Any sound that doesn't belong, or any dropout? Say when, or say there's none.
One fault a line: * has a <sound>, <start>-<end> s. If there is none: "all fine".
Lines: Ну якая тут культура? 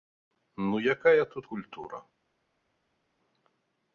all fine